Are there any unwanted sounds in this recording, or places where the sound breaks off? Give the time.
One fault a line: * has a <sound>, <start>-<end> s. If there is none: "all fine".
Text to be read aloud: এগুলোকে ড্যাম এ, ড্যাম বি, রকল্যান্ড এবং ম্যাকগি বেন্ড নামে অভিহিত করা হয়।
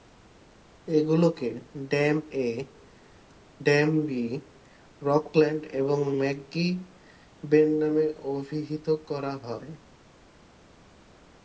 all fine